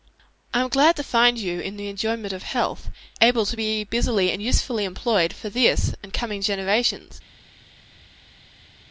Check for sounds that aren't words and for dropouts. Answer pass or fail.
pass